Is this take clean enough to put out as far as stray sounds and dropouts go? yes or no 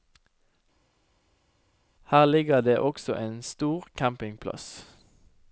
yes